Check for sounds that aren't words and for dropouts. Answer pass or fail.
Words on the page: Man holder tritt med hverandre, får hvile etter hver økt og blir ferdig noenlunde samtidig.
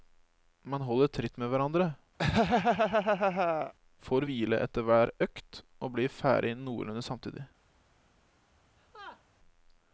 fail